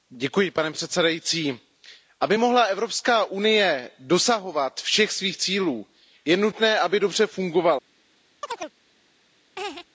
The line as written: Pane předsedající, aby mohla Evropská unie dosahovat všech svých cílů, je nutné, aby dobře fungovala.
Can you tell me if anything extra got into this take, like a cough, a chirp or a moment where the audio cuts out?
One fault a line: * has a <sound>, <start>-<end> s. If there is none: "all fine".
* has a chirp, 8.4-8.7 s
* has a laugh, 9.6-9.9 s